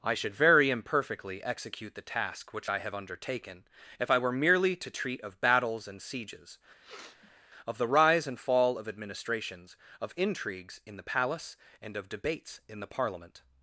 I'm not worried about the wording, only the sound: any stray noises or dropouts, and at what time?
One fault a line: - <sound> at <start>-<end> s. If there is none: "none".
- sniff at 6.8-7.5 s